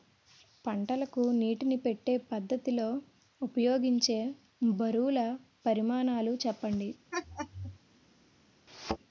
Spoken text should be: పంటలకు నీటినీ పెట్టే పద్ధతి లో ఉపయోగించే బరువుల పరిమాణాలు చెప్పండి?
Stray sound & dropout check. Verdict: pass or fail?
fail